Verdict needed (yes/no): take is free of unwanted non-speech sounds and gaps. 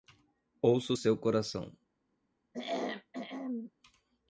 no